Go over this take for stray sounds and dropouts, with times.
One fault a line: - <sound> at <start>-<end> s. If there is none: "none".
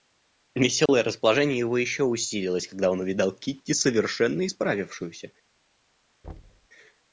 - dropout at 0.9-0.9 s
- thud at 6.2-6.7 s